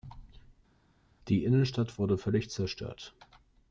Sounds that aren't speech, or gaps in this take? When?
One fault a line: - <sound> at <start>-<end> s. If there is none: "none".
none